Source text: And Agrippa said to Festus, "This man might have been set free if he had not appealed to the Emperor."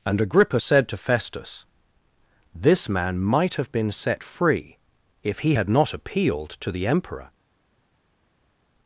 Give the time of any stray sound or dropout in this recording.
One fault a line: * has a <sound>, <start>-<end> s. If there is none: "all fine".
all fine